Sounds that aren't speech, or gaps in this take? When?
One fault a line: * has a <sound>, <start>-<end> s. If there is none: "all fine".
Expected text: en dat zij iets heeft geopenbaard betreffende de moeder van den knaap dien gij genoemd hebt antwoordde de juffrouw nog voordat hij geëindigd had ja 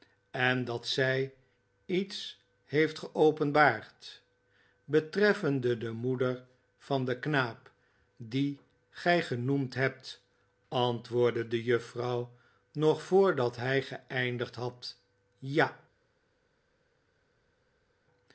all fine